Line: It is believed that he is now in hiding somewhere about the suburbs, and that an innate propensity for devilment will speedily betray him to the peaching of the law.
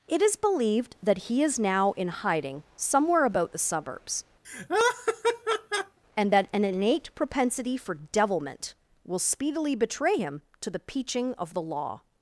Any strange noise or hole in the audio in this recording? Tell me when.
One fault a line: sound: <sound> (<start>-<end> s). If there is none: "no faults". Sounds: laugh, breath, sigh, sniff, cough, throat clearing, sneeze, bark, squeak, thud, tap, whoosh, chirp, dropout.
sound: laugh (4.4-6.0 s)